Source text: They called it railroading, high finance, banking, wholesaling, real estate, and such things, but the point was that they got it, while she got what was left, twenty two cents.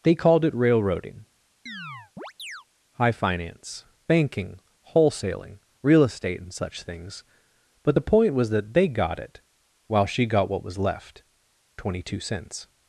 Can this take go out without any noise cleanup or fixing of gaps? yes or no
no